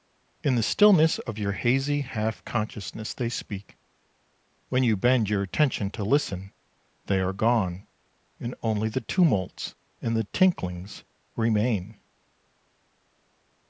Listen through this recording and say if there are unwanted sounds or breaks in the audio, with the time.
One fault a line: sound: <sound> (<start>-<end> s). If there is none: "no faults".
no faults